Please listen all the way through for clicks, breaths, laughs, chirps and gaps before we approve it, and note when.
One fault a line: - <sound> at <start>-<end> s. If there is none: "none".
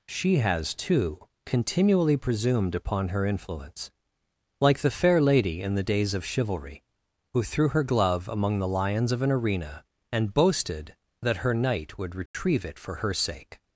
- dropout at 12.3-12.3 s